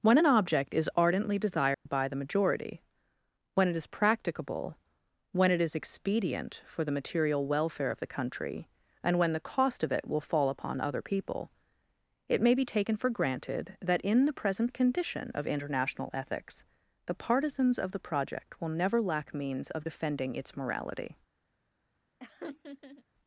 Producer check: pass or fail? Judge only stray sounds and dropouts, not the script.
fail